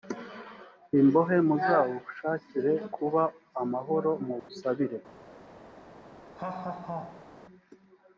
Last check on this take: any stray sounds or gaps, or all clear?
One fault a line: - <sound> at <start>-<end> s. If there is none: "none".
- dropout at 4.4-4.5 s
- laugh at 6.4-7.3 s